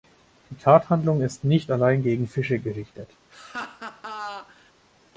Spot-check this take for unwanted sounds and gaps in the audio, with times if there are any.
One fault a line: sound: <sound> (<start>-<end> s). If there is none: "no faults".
sound: laugh (3.3-4.7 s)